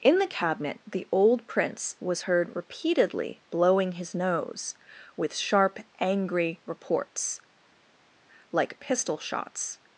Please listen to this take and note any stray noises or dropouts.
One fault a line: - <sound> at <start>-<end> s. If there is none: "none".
none